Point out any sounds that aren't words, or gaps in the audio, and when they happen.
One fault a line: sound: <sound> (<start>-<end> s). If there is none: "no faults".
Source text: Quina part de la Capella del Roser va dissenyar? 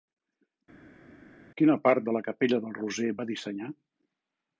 no faults